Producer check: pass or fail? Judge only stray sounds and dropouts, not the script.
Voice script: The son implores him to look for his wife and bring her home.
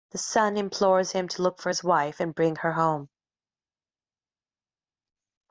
pass